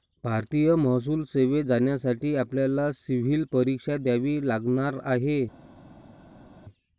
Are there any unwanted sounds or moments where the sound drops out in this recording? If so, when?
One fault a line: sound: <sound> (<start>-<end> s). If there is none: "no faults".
no faults